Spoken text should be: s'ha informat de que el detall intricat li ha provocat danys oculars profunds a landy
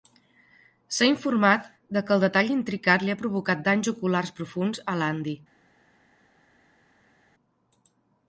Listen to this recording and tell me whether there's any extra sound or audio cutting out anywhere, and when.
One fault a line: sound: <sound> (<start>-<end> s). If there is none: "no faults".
no faults